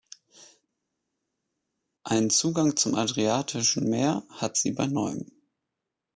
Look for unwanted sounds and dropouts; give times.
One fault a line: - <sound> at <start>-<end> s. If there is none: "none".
none